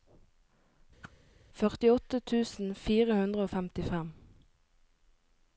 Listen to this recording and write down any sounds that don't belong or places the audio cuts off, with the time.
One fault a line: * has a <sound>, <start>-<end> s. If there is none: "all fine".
* has a whoosh, 1.0-1.1 s